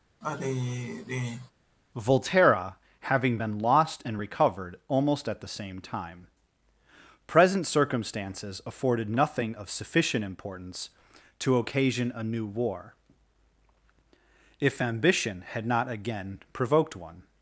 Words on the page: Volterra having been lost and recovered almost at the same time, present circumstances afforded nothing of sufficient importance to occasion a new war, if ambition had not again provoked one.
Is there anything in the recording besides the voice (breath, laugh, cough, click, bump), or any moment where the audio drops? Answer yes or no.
yes